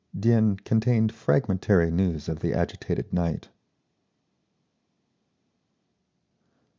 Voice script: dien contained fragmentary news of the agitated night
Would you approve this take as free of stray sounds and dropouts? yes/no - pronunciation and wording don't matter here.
yes